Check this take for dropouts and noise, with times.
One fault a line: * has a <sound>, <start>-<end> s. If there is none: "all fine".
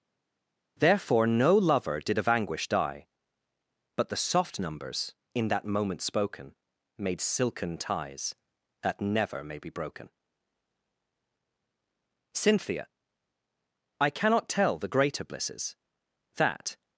all fine